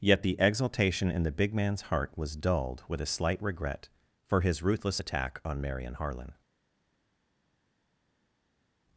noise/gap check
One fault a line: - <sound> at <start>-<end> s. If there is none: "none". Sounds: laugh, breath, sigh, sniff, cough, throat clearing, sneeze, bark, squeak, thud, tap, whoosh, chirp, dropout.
none